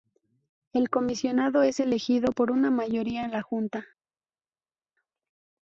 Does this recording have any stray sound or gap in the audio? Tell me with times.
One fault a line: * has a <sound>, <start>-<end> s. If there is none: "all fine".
all fine